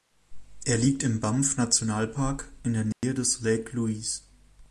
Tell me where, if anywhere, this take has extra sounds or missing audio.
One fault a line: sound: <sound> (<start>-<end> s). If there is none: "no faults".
sound: dropout (2.9-3.0 s)